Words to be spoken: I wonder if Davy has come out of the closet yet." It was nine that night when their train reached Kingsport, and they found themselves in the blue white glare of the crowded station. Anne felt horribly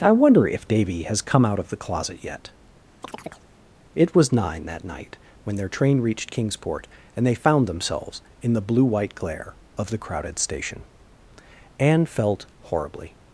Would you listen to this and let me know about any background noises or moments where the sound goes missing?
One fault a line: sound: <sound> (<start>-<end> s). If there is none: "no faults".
sound: chirp (3.0-3.5 s)